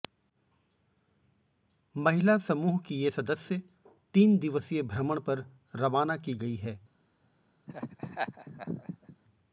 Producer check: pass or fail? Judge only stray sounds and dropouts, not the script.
fail